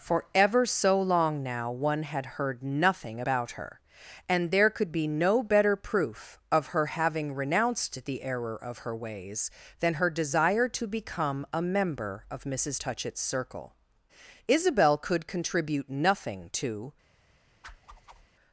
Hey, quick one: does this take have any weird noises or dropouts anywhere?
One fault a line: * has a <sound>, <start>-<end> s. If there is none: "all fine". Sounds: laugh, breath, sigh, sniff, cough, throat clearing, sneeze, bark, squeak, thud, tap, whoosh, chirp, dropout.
* has a whoosh, 17.6-18.3 s